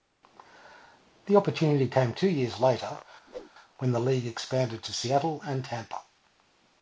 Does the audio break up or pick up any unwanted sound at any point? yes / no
yes